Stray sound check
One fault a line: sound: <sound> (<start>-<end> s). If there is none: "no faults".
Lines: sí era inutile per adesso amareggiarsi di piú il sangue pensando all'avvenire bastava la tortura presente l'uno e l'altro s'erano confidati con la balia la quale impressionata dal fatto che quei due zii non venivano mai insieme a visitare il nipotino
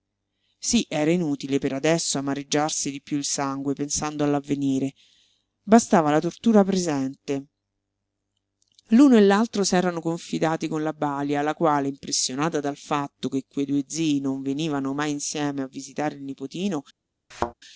sound: thud (17.3-17.5 s)